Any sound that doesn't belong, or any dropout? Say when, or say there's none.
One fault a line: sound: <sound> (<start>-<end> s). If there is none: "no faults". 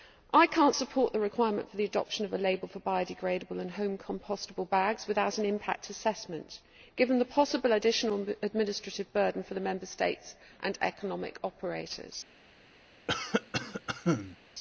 sound: cough (13.1-14.4 s)